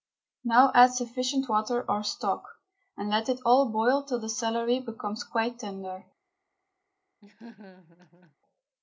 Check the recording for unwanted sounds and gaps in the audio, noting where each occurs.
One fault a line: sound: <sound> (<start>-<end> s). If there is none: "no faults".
sound: laugh (7.2-8.4 s)